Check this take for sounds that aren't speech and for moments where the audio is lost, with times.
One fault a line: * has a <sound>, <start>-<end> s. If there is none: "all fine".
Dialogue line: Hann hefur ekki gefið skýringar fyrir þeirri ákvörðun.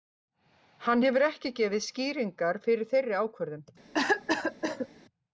* has a cough, 3.9-4.9 s